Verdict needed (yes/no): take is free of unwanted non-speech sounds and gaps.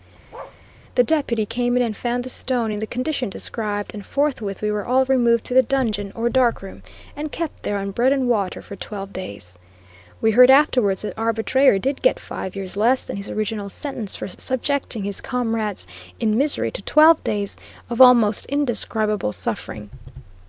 no